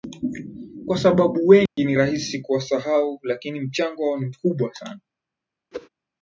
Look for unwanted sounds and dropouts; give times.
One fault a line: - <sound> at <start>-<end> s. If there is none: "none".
- dropout at 1.7-1.8 s
- whoosh at 5.7-5.9 s